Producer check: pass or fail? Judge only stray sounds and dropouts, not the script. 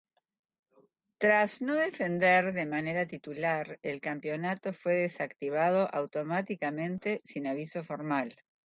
pass